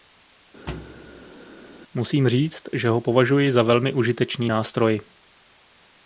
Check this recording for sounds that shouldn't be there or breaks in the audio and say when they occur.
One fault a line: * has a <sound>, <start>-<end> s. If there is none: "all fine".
* has a thud, 0.7-1.4 s